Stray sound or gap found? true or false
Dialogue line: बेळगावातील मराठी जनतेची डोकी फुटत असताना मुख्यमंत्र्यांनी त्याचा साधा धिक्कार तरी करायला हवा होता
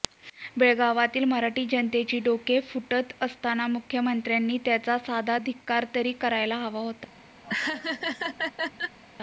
true